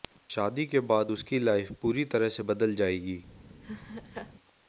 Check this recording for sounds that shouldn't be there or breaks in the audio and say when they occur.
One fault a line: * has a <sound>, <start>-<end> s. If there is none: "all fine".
* has a laugh, 3.6-4.3 s